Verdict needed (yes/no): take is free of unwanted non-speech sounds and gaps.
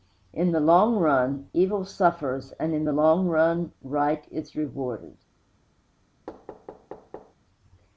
no